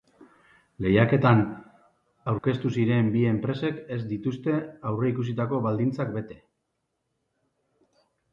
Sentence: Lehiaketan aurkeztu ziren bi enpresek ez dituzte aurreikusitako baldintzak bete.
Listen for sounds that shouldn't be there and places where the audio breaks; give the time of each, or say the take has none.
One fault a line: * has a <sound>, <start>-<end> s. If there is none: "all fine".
* has a dropout, 2.4-2.4 s